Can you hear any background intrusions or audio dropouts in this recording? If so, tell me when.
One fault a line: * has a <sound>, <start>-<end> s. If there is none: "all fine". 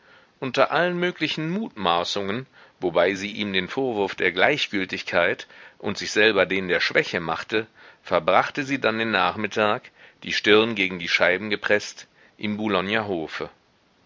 all fine